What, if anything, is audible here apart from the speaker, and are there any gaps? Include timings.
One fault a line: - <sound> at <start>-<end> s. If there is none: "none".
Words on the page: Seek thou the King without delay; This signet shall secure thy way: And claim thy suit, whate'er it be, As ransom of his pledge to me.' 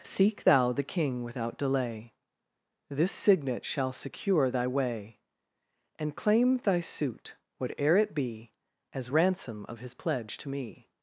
none